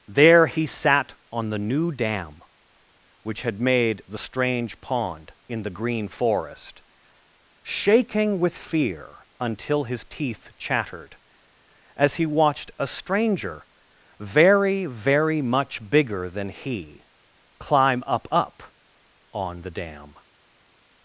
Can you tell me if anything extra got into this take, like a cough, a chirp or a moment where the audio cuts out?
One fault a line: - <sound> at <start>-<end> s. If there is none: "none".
none